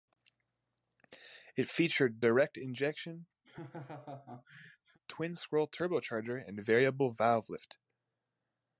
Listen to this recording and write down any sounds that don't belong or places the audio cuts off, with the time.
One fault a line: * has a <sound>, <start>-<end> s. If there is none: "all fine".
* has a laugh, 3.4-5.0 s